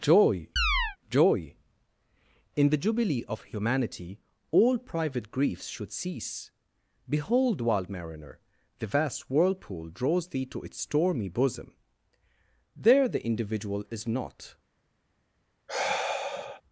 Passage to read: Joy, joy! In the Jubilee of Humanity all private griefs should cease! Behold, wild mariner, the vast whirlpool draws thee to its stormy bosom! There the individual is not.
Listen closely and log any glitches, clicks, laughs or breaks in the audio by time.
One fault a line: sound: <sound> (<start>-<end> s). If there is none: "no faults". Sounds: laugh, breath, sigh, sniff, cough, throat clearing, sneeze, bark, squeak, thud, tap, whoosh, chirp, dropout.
sound: chirp (0.6-1.0 s)
sound: sigh (15.7-16.6 s)